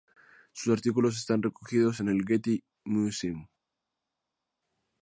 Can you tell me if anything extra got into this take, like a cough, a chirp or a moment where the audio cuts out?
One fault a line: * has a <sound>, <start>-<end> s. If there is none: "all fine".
all fine